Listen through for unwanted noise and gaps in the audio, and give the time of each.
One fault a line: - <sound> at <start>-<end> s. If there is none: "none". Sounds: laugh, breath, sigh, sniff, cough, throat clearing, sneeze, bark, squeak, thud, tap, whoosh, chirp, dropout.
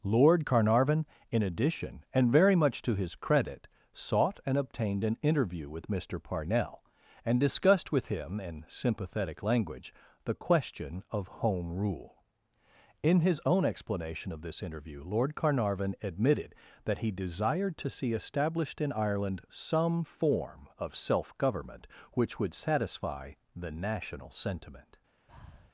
- breath at 25.3-25.7 s